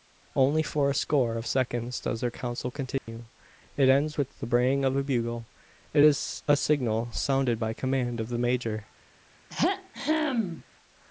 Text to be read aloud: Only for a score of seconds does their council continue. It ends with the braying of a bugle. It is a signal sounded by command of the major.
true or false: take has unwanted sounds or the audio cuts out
true